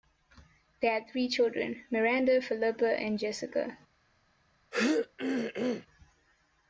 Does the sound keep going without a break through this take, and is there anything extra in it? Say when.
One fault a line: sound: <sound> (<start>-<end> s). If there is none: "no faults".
sound: throat clearing (4.7-5.9 s)